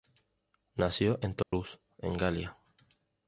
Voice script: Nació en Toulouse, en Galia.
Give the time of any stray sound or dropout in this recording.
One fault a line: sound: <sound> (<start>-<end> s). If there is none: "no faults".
sound: dropout (1.4-1.5 s)